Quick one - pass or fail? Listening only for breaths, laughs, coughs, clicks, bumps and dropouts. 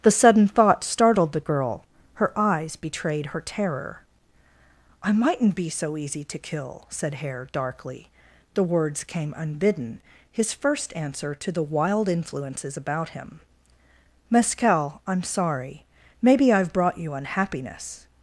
pass